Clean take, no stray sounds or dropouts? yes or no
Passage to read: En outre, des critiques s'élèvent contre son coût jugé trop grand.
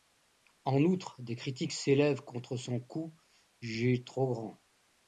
yes